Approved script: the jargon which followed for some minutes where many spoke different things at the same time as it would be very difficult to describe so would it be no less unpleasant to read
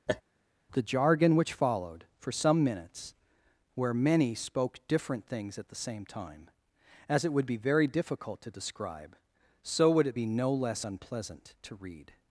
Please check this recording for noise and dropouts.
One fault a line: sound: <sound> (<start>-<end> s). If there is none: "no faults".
sound: laugh (0.1-0.2 s)